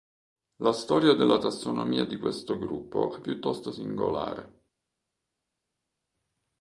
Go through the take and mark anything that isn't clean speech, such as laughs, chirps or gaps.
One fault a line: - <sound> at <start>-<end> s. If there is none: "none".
none